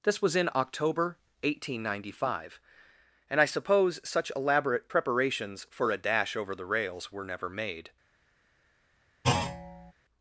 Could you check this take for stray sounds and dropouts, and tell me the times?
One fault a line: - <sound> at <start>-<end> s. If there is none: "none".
- thud at 9.2-9.9 s